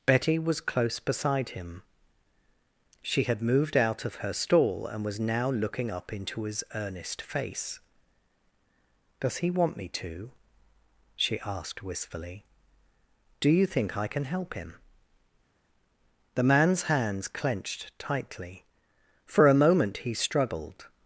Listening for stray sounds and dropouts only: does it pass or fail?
pass